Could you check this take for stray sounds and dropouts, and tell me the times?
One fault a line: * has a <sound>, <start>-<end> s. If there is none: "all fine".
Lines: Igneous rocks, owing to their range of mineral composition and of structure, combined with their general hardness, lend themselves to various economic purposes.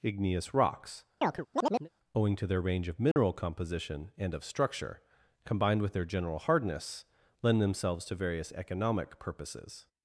* has a chirp, 1.2-1.9 s
* has a dropout, 3.1-3.2 s